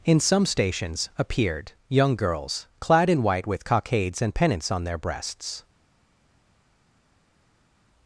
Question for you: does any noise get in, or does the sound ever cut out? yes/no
no